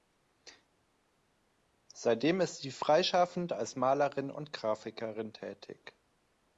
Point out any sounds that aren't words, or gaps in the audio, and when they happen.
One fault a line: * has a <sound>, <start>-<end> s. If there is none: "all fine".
all fine